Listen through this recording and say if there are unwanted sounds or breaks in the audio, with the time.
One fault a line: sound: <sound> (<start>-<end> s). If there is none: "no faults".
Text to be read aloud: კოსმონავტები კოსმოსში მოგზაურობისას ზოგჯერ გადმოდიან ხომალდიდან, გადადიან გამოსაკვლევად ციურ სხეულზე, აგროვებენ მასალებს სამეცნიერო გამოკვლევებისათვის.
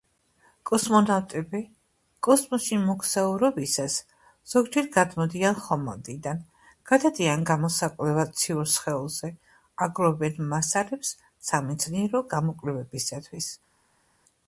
no faults